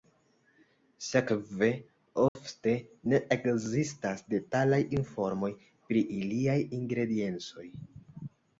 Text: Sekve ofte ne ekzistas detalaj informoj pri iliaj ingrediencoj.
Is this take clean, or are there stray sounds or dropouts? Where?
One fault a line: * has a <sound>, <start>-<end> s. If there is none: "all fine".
* has a dropout, 2.3-2.4 s